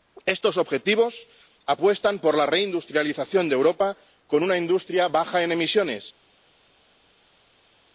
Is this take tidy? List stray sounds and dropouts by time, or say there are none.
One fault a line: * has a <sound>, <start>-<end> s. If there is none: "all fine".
all fine